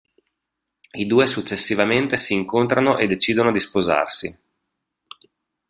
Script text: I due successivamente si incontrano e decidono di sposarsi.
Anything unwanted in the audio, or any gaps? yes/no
no